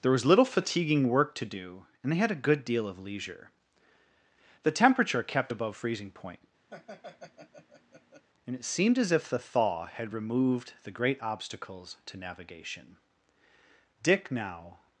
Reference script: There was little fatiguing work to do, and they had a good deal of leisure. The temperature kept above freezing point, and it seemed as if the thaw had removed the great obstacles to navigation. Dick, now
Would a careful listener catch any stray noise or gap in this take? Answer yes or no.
yes